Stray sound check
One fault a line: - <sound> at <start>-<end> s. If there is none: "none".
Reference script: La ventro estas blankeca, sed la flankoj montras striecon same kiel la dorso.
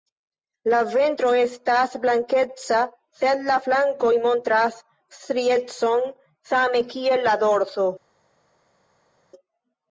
none